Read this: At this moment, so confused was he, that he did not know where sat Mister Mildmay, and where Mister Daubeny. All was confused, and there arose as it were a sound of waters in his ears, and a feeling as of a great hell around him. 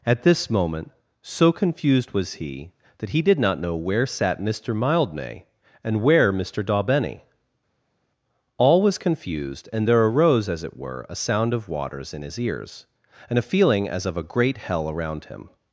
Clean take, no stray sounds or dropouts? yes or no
yes